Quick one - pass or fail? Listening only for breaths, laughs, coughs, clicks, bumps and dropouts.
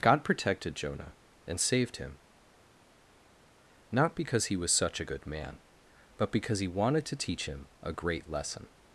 pass